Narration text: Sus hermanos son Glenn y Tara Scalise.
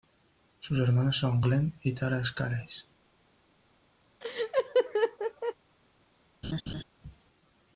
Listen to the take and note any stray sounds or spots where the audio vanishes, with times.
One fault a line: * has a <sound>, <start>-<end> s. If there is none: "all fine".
* has a laugh, 4.2-5.5 s
* has a laugh, 6.4-6.8 s